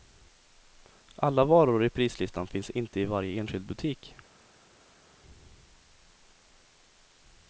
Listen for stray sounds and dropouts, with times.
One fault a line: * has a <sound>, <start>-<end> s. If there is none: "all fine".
all fine